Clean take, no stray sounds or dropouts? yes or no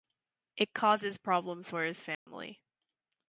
no